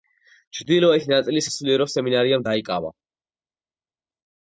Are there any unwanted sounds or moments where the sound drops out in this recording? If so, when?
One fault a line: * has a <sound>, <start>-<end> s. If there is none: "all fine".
all fine